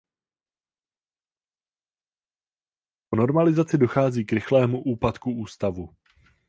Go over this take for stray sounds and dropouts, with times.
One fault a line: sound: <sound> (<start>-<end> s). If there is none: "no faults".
no faults